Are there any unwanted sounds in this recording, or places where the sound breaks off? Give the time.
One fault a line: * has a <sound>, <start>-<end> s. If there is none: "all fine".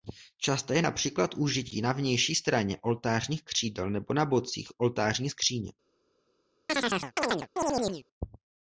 * has a chirp, 6.7-8.0 s